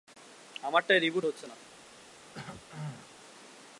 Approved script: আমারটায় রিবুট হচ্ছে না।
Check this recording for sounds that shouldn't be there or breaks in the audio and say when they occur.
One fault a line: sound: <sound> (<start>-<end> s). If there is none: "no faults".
sound: throat clearing (2.3-3.1 s)